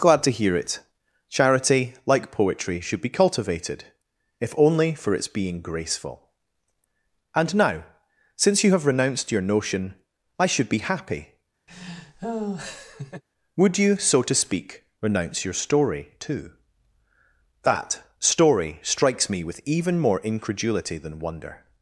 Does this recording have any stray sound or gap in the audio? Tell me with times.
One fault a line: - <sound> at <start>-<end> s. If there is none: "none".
- laugh at 11.7-13.2 s